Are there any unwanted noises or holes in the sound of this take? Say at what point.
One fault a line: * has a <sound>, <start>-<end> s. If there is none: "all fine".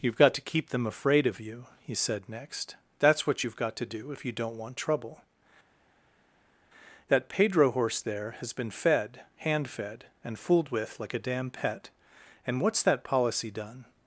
all fine